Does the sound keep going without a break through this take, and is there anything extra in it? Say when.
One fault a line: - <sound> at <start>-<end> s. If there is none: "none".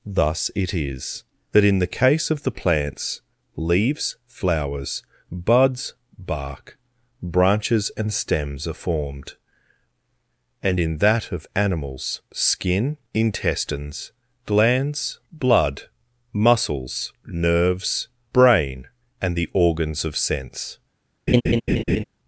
- laugh at 21.3-22.0 s